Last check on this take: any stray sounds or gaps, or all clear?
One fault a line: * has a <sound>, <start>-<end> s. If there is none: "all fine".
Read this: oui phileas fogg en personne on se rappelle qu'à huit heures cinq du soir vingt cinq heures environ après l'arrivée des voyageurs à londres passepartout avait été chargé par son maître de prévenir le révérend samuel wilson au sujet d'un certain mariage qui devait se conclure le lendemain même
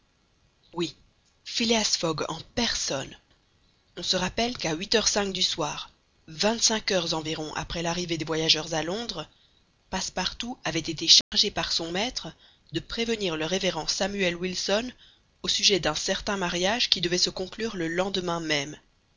* has a dropout, 11.2-11.3 s